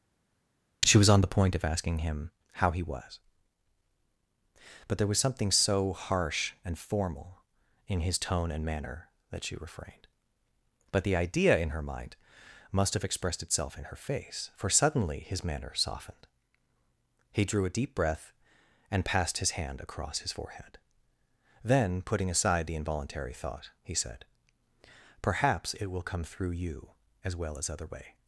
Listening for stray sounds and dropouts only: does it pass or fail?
pass